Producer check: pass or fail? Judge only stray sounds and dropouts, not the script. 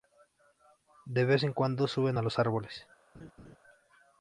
fail